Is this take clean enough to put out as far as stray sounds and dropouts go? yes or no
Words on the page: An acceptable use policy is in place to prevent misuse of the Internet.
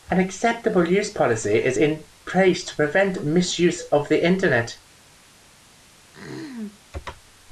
no